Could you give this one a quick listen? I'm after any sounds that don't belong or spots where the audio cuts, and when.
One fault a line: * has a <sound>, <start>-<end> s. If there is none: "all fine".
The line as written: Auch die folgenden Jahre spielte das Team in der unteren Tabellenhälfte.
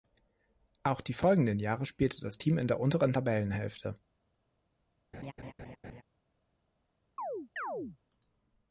* has a laugh, 5.1-6.0 s
* has a chirp, 7.2-8.0 s